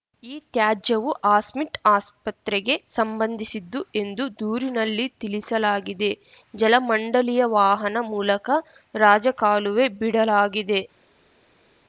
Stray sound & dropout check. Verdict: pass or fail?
pass